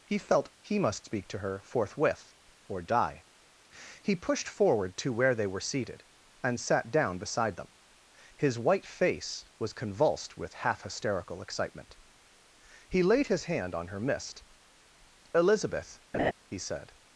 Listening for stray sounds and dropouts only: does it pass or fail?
fail